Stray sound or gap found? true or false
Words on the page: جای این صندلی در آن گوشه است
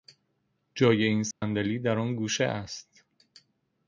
true